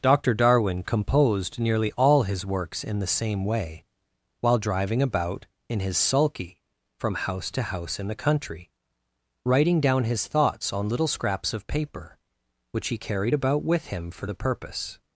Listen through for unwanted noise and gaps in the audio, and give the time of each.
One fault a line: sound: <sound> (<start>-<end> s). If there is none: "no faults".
no faults